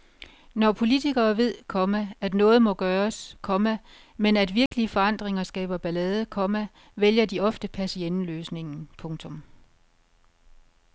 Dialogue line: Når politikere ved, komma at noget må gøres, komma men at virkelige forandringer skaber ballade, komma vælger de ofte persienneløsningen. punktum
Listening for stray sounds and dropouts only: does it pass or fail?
fail